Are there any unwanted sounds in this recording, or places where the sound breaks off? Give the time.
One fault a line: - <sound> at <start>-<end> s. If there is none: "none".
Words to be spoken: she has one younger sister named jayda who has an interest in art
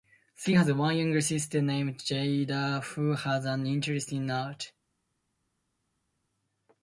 none